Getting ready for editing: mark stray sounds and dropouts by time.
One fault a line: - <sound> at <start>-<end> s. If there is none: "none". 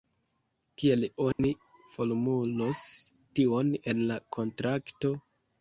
- dropout at 1.3-1.4 s